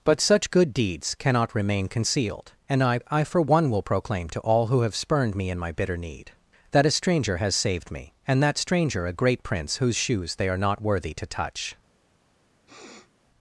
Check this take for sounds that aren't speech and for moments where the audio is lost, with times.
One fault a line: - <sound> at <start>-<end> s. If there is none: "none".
- sniff at 12.7-13.1 s